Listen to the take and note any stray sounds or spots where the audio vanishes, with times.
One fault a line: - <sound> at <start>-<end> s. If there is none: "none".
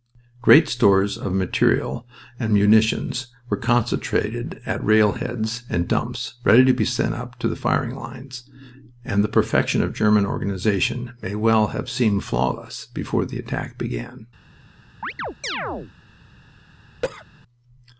- chirp at 15.0-15.9 s
- cough at 17.0-17.3 s